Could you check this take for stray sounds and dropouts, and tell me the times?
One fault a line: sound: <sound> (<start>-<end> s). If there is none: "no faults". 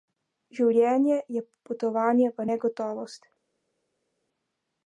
no faults